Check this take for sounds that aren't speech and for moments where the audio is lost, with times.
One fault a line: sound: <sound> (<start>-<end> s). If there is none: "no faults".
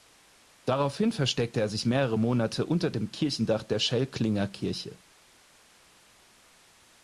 no faults